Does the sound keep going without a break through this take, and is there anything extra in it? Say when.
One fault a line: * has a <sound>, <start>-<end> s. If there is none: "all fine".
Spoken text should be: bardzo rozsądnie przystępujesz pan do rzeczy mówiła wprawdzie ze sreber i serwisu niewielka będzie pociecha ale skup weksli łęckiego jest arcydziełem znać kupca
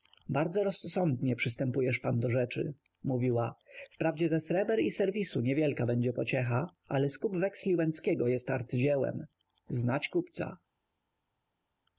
all fine